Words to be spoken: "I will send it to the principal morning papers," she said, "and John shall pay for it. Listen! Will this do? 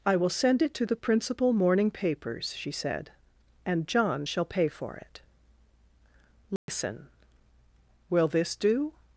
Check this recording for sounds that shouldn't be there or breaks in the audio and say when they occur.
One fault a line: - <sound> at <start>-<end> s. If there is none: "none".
- dropout at 6.6-6.7 s